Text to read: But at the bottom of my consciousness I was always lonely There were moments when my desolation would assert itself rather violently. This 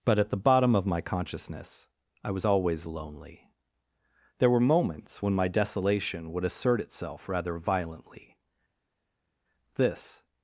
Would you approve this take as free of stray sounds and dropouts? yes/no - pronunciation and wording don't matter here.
yes